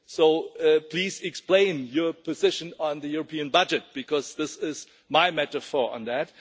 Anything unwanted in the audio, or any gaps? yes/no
no